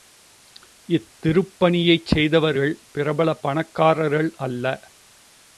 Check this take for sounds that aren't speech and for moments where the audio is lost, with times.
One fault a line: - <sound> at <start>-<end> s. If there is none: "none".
none